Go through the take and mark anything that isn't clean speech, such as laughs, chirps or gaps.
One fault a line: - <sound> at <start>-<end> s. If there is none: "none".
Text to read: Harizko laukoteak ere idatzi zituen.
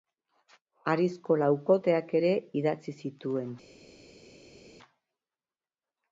none